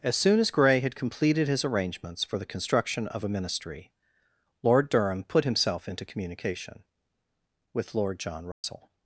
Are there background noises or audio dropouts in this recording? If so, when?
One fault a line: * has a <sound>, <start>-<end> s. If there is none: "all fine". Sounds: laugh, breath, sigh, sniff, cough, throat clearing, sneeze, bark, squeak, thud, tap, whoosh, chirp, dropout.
* has a dropout, 8.5-8.6 s